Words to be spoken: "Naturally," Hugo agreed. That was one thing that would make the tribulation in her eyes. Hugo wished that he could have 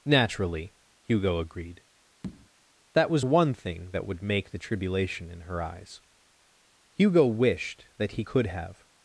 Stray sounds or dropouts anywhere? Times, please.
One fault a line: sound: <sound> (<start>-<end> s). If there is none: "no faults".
sound: tap (2.2-2.5 s)